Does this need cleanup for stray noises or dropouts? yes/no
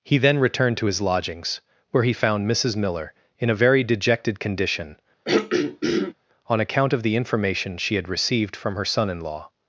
yes